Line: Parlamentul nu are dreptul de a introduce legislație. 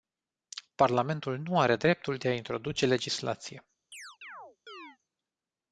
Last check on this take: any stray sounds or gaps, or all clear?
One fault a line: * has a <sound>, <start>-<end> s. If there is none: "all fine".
* has a chirp, 3.9-5.0 s